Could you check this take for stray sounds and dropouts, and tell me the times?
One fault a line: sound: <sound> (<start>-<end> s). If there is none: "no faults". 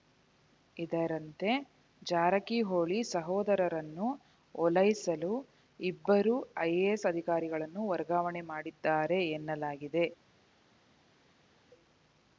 no faults